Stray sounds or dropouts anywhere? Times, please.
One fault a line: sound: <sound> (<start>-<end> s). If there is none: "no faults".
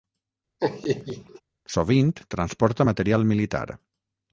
sound: laugh (0.6-1.4 s)